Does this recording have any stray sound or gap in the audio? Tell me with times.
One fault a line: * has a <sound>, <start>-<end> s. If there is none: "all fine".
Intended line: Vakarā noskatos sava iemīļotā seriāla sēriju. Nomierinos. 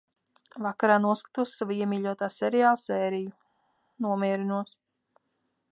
all fine